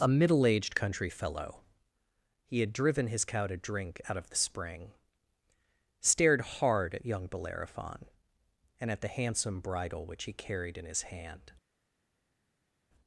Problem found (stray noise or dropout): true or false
false